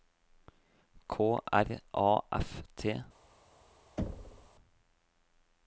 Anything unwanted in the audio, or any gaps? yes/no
yes